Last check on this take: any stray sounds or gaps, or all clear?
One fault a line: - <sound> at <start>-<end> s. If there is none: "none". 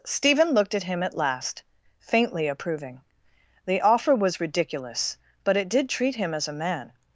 none